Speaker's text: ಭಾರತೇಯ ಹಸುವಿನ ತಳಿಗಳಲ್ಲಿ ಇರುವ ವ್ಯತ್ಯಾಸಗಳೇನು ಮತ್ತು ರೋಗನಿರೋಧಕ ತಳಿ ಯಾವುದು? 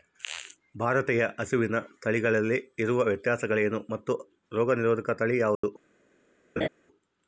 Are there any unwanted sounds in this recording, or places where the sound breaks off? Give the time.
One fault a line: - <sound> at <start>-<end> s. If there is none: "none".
- dropout at 5.5-5.6 s
- laugh at 6.6-6.7 s